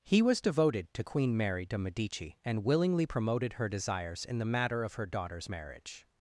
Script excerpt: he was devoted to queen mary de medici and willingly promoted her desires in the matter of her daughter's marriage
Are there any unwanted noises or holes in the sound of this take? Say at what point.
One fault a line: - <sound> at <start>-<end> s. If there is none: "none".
none